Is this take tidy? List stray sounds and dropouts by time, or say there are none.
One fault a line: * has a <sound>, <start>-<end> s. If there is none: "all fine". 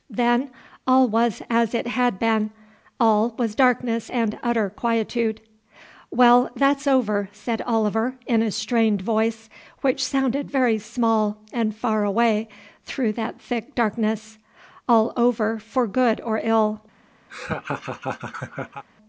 * has a laugh, 17.3-18.8 s